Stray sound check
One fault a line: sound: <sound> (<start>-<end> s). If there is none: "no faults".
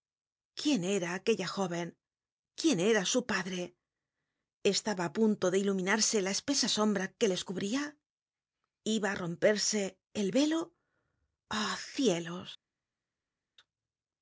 no faults